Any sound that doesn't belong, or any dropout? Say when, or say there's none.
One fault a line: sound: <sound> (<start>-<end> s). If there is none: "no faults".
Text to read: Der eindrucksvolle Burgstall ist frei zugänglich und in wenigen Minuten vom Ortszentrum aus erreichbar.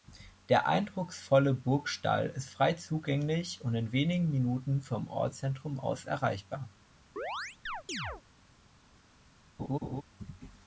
sound: chirp (7.2-8.2 s)
sound: laugh (9.6-10.0 s)